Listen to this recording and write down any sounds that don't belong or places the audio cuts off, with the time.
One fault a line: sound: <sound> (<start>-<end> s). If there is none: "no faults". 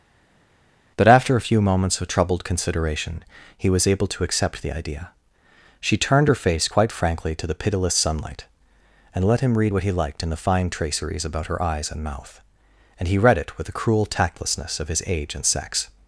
no faults